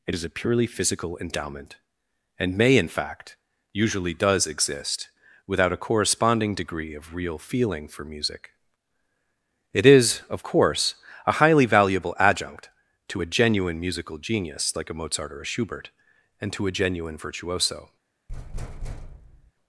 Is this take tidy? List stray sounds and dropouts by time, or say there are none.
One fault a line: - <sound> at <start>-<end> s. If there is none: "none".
- thud at 18.3-19.5 s